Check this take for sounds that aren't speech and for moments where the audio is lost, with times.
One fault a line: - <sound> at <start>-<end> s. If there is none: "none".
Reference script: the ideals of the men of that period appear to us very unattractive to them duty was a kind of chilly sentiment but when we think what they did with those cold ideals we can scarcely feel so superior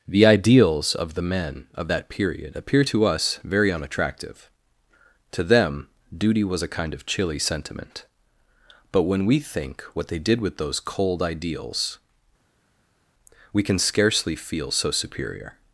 none